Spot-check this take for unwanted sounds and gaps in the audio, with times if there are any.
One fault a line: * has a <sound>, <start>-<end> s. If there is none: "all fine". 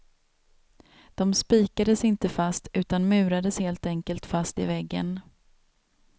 all fine